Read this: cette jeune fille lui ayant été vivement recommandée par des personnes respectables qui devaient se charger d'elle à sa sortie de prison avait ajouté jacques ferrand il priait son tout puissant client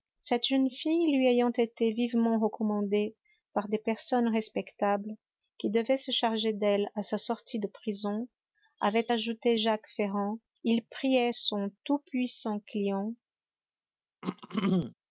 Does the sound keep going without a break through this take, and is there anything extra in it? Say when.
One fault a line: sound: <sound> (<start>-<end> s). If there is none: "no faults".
sound: throat clearing (14.2-14.9 s)